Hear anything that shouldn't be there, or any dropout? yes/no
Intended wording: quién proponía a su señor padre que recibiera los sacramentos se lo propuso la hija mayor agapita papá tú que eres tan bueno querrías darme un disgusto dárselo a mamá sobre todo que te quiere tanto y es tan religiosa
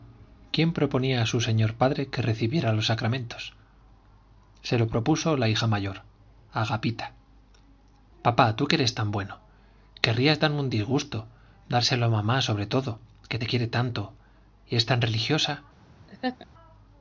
yes